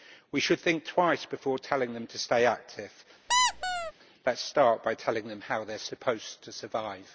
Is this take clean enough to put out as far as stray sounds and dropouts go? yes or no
no